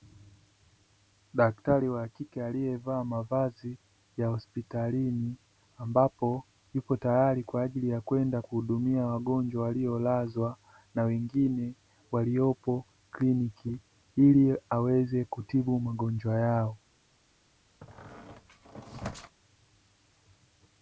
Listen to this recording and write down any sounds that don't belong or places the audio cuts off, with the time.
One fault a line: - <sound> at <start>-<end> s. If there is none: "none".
- squeak at 17.8-19.4 s